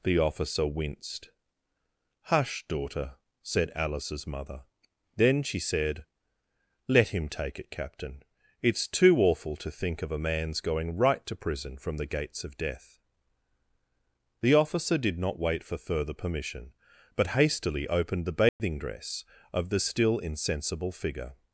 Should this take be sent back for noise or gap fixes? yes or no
yes